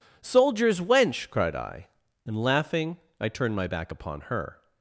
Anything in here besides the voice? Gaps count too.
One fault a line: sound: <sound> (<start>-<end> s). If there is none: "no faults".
no faults